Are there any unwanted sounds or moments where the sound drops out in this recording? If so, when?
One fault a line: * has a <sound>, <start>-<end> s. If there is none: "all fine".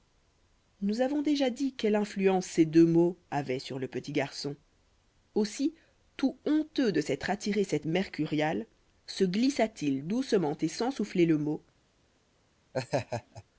* has a laugh, 12.7-13.4 s